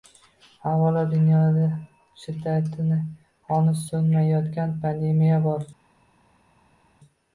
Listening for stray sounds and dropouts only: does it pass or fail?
pass